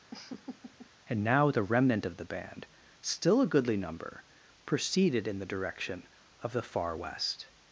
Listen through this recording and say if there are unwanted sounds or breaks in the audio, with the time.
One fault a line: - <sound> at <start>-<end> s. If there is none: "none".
- laugh at 0.1-0.9 s